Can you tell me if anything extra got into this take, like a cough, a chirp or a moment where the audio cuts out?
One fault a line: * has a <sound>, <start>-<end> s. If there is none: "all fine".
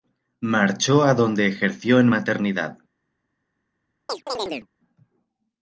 * has a chirp, 4.1-4.7 s